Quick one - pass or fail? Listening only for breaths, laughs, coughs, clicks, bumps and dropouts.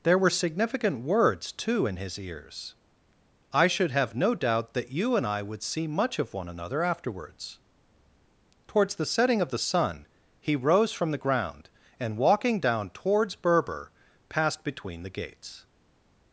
pass